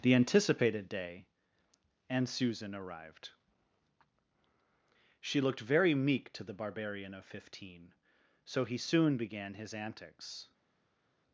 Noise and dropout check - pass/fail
pass